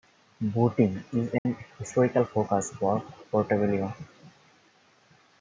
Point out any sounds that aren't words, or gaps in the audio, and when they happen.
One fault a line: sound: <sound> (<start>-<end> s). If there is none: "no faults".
sound: dropout (1.4-1.5 s)